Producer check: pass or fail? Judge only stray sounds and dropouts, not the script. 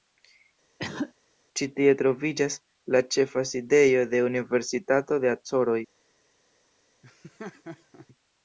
fail